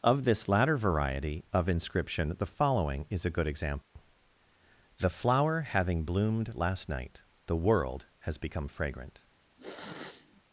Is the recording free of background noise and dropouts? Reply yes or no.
no